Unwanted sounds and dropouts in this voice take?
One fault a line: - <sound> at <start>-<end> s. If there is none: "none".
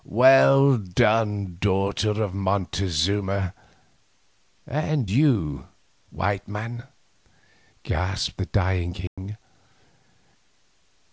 - dropout at 9.1-9.2 s